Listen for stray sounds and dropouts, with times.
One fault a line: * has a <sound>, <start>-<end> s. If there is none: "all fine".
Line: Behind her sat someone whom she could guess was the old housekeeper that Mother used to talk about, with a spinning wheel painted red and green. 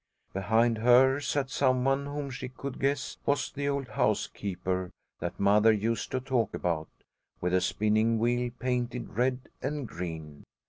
all fine